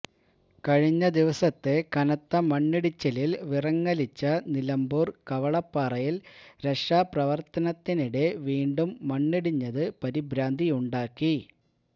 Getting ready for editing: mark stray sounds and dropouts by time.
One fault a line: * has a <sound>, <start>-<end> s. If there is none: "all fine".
all fine